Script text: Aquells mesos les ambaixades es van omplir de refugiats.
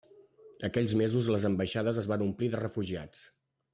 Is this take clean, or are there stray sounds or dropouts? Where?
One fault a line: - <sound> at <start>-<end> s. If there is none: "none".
none